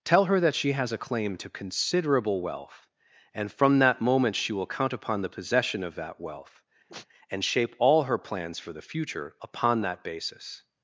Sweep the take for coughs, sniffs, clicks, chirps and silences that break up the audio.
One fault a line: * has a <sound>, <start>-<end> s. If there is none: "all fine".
* has a sneeze, 6.9-7.1 s